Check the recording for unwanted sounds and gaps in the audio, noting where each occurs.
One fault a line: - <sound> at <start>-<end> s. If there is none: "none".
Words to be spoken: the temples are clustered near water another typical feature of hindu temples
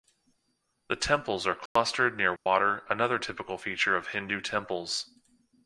- dropout at 1.7-1.8 s
- dropout at 2.4-2.5 s